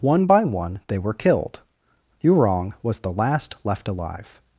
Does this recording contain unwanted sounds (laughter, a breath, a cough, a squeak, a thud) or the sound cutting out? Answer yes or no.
no